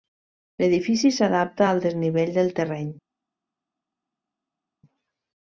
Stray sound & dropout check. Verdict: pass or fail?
pass